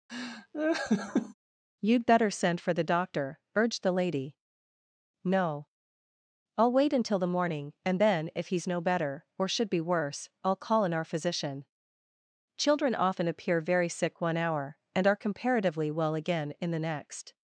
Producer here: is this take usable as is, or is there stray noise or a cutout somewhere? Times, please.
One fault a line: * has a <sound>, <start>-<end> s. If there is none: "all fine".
* has a laugh, 0.1-1.3 s